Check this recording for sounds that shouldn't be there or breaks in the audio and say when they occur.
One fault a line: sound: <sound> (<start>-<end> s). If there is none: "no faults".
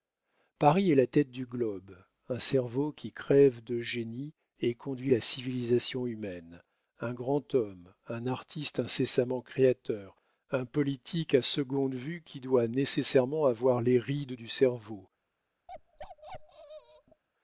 sound: bark (15.7-17.2 s)